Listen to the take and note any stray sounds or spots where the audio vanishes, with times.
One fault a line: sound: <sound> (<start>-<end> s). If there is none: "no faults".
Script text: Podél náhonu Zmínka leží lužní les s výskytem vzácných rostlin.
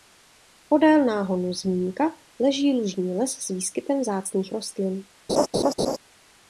sound: laugh (5.3-6.0 s)